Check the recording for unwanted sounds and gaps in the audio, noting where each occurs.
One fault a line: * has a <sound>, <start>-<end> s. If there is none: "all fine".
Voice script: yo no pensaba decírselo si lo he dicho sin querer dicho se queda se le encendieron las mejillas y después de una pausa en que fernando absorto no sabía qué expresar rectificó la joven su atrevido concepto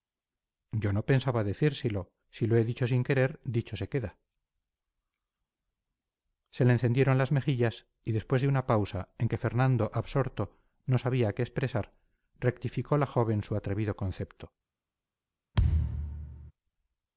* has a thud, 15.5-16.5 s